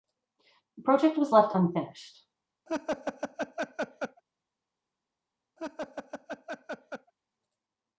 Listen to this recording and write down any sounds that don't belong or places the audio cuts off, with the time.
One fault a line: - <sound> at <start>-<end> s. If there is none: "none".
- laugh at 2.7-4.2 s
- laugh at 5.6-7.1 s